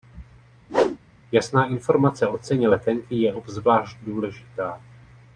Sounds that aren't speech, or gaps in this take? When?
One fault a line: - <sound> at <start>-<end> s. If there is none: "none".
- whoosh at 0.7-1.0 s